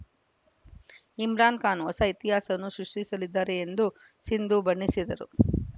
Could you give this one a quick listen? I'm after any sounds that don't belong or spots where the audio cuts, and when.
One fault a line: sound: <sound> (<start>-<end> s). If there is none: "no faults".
no faults